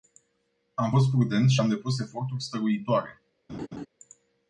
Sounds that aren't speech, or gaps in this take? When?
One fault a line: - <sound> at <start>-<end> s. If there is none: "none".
- laugh at 3.5-3.9 s